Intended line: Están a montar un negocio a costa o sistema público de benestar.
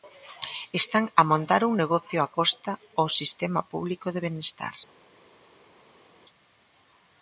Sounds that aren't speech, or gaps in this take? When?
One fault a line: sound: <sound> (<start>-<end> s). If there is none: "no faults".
no faults